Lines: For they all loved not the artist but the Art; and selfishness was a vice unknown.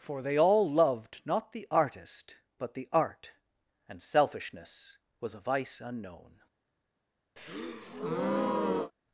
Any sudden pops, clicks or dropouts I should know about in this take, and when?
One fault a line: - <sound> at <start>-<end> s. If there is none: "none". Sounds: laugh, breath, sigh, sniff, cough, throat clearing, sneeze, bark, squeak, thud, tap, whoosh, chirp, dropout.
- breath at 7.4-8.9 s